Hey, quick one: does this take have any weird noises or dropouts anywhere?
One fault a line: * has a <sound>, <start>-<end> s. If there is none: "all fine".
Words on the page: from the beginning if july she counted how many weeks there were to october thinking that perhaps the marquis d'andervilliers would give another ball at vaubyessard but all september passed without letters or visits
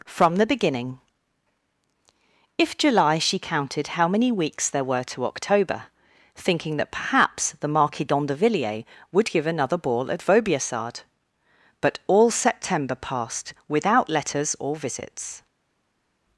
all fine